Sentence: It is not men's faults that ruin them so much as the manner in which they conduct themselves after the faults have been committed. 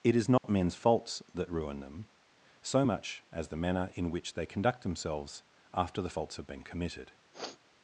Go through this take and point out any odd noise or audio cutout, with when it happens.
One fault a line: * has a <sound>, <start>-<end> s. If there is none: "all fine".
* has a dropout, 0.4-0.4 s
* has a sniff, 7.3-7.6 s